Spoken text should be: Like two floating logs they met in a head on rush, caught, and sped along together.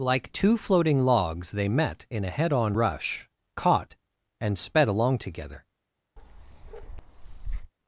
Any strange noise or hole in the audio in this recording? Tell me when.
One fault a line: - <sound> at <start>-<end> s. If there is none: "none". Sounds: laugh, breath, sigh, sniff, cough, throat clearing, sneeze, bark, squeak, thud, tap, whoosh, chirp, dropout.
- bark at 6.2-7.7 s